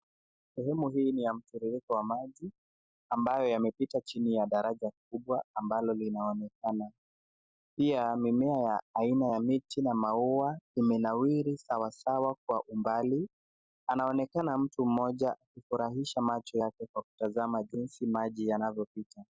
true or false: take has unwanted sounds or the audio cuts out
false